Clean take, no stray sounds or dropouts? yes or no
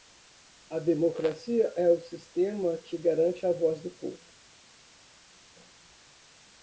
yes